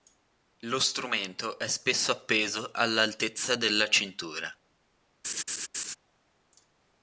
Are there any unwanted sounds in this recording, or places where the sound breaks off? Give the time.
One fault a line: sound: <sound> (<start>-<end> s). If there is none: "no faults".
sound: laugh (5.2-6.0 s)